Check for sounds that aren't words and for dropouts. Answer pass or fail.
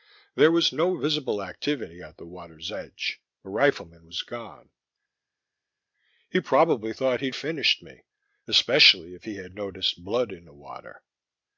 pass